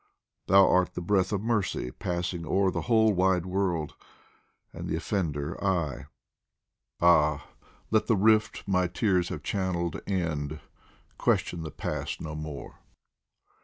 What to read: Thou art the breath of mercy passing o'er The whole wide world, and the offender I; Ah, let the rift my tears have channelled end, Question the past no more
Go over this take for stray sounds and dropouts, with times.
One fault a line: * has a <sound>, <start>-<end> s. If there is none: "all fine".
all fine